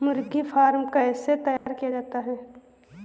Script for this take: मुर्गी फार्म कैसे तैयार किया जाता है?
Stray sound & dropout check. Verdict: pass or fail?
fail